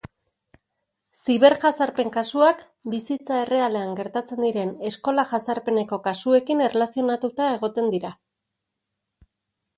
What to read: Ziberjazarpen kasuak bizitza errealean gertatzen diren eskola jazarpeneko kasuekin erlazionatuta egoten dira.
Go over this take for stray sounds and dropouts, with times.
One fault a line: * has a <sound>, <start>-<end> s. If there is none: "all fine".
all fine